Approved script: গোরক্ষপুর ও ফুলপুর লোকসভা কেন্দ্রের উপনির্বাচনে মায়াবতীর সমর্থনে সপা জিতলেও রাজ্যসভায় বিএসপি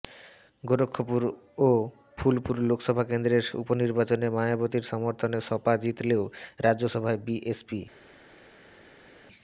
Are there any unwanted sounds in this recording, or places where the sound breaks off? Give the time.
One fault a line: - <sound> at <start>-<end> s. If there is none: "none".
none